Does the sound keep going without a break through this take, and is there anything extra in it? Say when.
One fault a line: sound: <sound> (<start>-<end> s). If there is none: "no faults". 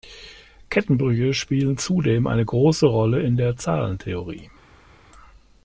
no faults